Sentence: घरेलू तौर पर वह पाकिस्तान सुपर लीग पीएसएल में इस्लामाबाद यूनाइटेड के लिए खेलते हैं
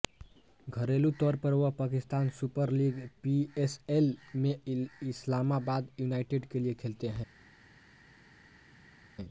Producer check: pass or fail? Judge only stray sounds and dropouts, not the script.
pass